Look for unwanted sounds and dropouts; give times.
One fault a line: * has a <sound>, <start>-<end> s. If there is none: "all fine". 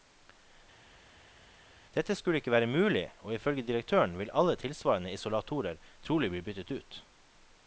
all fine